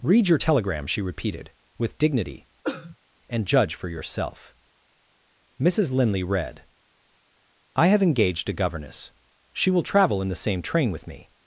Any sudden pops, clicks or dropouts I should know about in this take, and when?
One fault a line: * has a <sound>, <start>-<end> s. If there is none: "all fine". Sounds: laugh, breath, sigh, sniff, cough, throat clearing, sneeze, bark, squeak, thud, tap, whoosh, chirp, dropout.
* has a cough, 2.6-3.0 s